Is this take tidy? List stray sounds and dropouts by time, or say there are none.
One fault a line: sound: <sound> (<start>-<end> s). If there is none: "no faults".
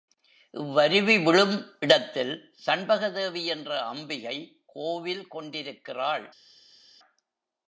no faults